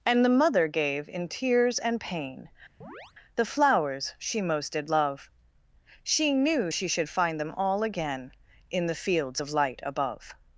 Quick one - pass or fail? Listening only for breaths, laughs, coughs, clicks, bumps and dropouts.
fail